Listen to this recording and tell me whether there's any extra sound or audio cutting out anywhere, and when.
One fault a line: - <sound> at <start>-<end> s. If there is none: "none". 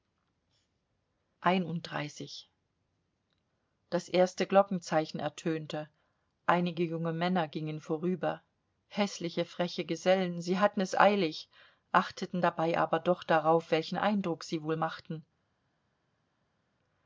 none